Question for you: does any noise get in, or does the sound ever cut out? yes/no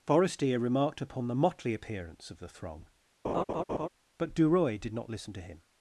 yes